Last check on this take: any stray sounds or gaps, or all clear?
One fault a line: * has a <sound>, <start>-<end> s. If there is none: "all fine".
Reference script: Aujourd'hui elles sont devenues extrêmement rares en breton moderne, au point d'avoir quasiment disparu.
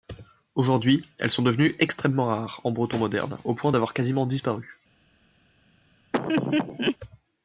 * has a laugh, 6.1-7.0 s